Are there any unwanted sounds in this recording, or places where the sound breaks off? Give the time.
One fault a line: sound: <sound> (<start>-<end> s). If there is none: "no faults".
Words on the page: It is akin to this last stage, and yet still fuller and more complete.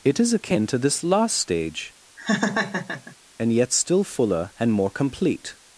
sound: laugh (2.2-3.2 s)